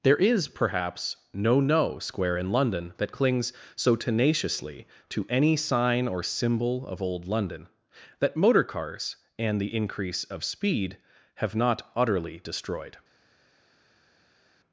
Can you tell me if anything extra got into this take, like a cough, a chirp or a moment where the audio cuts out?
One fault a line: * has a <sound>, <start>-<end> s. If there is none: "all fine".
all fine